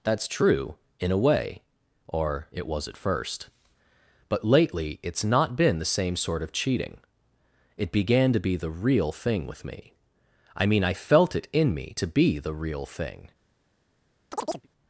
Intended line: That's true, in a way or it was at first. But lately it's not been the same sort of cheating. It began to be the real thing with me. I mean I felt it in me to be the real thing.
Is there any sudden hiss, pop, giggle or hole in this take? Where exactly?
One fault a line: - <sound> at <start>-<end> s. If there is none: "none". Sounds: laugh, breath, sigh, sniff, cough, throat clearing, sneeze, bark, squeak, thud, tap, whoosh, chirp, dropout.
- chirp at 14.3-14.7 s